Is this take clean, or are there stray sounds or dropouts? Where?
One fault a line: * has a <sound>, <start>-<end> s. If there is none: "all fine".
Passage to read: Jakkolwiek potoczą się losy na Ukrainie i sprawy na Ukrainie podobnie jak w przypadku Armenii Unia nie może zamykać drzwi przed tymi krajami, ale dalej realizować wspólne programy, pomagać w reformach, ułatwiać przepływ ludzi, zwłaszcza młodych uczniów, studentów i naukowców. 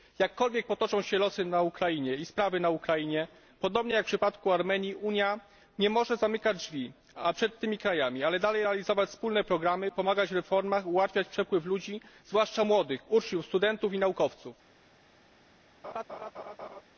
* has a laugh, 15.8-16.8 s